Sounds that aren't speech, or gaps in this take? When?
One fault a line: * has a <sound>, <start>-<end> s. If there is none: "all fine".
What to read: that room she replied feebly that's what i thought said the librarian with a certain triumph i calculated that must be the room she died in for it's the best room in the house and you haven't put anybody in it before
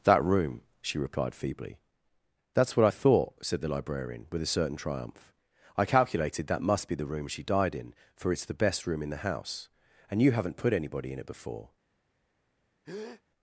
* has a breath, 12.8-13.2 s